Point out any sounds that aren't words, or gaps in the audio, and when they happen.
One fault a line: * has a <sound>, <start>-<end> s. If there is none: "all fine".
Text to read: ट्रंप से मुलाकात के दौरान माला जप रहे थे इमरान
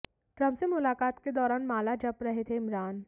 all fine